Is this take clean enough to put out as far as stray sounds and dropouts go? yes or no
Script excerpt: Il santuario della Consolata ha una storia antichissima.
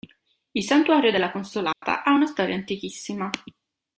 no